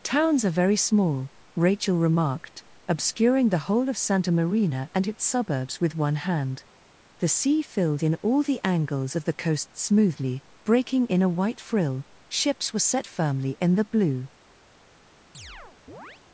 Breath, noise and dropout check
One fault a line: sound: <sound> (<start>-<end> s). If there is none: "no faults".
sound: chirp (15.3-16.2 s)